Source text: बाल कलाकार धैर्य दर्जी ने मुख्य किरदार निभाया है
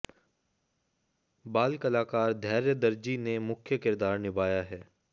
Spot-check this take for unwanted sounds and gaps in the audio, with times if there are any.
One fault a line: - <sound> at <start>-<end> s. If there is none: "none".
none